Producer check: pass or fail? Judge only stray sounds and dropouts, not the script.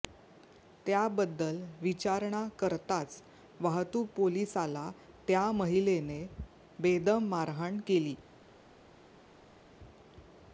pass